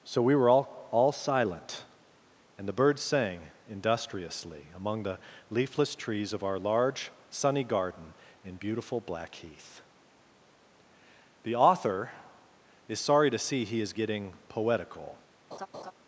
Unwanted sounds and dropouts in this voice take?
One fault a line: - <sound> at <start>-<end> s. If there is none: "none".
- laugh at 15.5-15.9 s